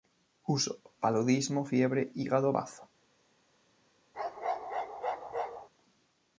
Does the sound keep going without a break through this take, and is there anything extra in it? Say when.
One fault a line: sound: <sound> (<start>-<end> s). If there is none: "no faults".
sound: bark (4.1-5.7 s)